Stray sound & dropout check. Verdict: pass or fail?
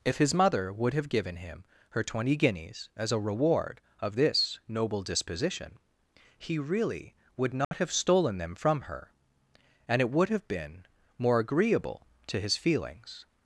fail